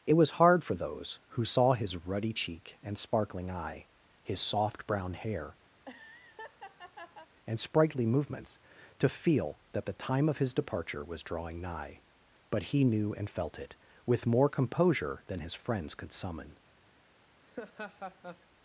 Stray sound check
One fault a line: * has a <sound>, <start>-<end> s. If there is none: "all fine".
* has a laugh, 5.7-7.3 s
* has a laugh, 17.4-18.5 s